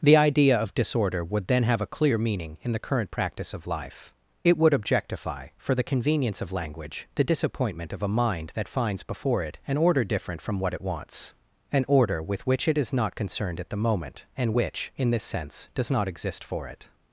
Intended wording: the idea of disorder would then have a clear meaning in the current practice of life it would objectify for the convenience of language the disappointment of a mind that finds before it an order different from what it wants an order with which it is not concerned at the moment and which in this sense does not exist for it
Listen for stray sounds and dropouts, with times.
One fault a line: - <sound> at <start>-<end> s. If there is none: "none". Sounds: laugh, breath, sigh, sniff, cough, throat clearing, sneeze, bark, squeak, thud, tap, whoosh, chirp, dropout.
none